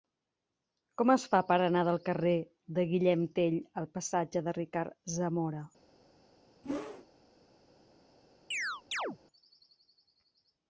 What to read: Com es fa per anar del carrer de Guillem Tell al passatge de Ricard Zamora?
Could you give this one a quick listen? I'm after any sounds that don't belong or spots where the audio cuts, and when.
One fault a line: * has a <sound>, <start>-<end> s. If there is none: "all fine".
* has a whoosh, 6.6-7.1 s
* has a chirp, 8.5-9.2 s